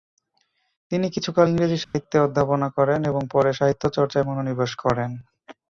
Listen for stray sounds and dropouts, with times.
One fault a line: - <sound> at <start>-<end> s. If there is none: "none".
- dropout at 1.8-1.9 s